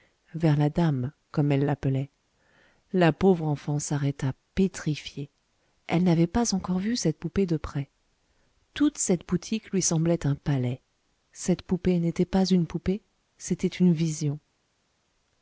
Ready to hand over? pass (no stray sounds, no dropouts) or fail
pass